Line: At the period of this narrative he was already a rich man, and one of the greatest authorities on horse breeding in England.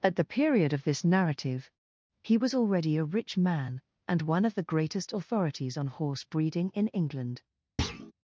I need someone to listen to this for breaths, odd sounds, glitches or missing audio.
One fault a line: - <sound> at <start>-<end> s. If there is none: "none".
- thud at 7.8-8.1 s